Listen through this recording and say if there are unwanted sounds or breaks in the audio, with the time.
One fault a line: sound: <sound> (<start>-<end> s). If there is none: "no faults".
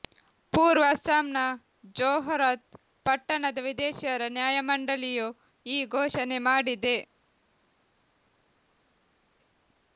no faults